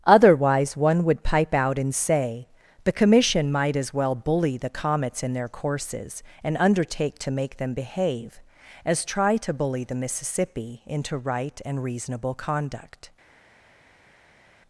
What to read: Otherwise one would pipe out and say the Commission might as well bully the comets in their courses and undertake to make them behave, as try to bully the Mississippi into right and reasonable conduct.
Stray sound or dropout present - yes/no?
no